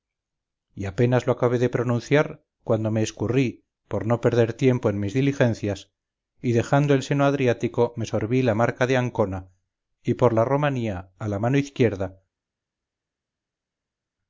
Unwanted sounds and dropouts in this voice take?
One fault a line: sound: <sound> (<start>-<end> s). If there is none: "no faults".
no faults